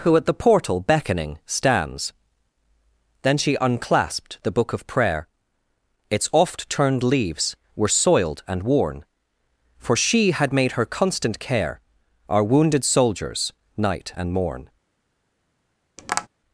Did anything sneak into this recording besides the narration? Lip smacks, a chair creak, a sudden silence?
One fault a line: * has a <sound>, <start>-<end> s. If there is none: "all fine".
* has a tap, 16.0-16.3 s